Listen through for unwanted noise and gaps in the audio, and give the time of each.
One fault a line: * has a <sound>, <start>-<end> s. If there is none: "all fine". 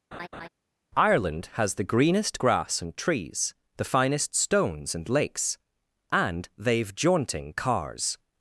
* has a laugh, 0.1-0.5 s